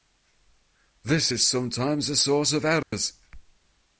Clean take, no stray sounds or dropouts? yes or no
no